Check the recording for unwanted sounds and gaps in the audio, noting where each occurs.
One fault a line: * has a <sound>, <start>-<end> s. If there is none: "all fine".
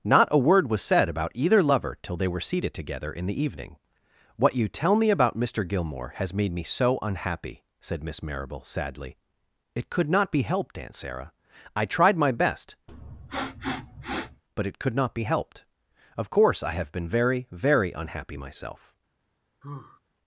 * has a sniff, 12.9-14.4 s
* has a sigh, 19.6-20.0 s